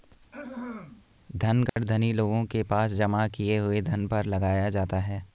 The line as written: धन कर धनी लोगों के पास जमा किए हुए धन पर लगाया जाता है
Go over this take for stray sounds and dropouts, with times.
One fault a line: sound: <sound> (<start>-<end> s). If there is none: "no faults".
sound: throat clearing (0.3-1.0 s)
sound: dropout (1.7-1.8 s)